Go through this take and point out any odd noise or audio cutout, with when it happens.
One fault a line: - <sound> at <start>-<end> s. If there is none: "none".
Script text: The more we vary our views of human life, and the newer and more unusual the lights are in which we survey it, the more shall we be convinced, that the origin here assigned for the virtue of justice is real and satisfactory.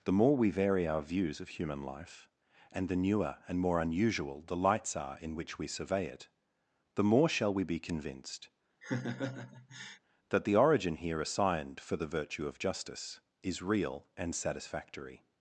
- laugh at 8.8-10.0 s